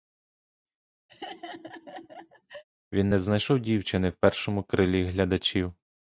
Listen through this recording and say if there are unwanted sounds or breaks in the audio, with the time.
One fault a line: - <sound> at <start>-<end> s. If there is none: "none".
- laugh at 1.1-2.6 s